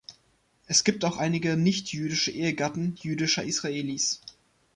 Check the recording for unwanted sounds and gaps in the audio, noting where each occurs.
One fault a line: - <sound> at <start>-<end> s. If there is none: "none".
none